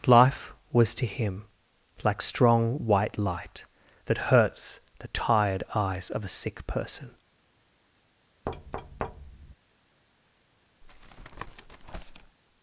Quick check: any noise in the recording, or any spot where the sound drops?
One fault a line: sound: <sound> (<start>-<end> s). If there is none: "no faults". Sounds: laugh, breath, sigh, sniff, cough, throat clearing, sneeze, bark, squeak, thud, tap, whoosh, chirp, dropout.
sound: thud (8.5-9.6 s)
sound: tap (10.8-12.4 s)